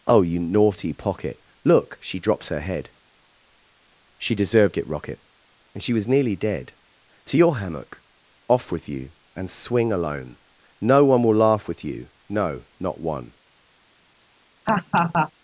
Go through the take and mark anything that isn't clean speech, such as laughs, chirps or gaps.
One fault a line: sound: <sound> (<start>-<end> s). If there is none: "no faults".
sound: laugh (14.7-15.3 s)